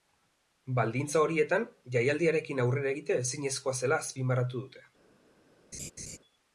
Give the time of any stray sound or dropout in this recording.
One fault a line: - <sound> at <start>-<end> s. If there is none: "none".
- laugh at 5.7-6.2 s